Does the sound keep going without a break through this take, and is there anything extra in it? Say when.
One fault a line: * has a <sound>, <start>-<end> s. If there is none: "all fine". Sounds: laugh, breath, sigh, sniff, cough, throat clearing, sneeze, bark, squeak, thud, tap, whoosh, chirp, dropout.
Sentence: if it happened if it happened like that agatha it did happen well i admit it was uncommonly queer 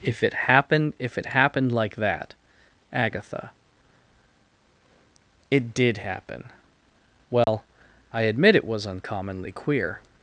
* has a dropout, 7.4-7.5 s